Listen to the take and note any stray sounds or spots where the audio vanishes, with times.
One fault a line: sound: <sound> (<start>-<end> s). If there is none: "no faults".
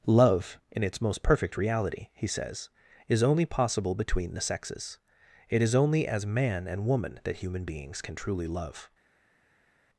no faults